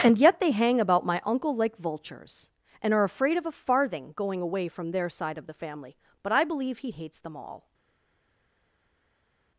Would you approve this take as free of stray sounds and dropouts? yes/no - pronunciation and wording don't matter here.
yes